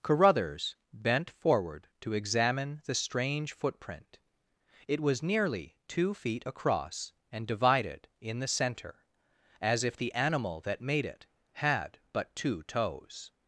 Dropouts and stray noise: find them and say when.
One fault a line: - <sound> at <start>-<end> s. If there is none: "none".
none